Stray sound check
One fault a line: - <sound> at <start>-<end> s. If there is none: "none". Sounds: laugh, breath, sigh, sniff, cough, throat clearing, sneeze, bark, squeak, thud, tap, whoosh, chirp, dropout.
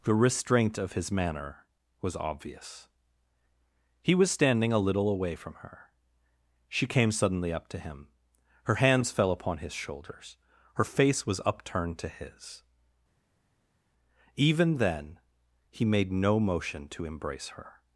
none